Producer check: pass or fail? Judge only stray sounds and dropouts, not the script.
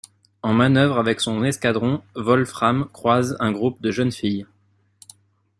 pass